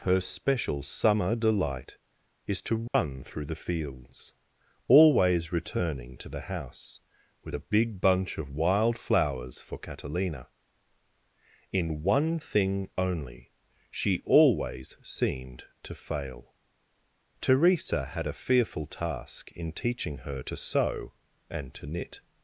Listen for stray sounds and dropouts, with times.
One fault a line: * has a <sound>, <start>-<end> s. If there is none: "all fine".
* has a dropout, 2.9-2.9 s